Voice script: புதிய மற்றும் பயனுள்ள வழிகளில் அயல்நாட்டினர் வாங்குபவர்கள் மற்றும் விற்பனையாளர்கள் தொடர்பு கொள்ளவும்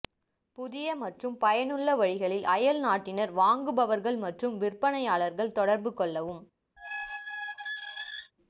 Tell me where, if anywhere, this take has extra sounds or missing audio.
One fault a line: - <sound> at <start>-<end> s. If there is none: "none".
- squeak at 6.8-8.3 s